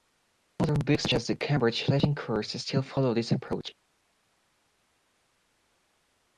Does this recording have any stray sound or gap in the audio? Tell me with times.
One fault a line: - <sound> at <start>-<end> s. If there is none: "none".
none